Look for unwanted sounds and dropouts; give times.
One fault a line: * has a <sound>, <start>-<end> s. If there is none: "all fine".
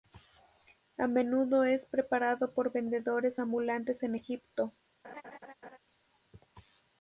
* has a laugh, 5.0-5.8 s